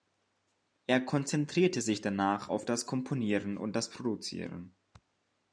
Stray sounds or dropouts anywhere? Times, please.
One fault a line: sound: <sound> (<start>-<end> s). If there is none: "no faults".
no faults